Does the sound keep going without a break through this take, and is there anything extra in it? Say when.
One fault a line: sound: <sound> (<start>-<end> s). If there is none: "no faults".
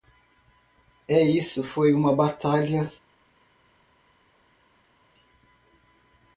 no faults